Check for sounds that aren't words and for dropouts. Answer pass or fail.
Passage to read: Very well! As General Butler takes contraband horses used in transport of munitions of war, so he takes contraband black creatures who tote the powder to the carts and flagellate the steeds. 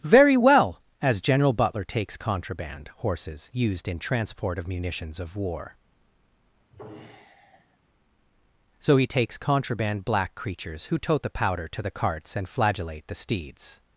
fail